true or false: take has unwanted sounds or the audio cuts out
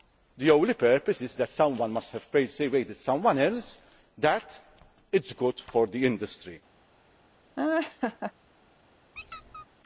true